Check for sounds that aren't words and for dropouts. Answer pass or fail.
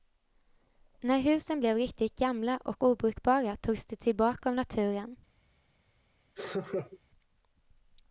fail